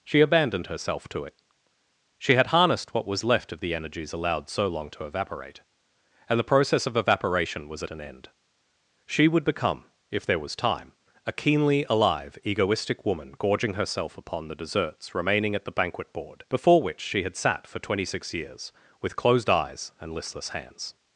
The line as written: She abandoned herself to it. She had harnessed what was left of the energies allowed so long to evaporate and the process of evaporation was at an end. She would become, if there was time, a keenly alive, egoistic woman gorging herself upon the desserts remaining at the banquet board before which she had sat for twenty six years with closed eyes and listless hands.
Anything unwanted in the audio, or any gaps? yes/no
no